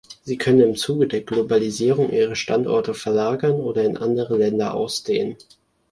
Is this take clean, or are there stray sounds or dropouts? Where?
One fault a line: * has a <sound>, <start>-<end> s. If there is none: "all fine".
all fine